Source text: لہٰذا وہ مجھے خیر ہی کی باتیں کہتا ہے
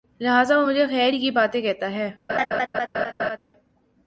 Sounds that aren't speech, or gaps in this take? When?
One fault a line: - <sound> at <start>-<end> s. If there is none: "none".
- laugh at 2.3-3.4 s